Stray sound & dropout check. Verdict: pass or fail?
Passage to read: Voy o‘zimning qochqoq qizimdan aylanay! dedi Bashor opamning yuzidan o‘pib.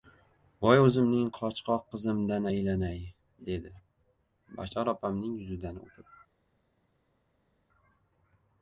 pass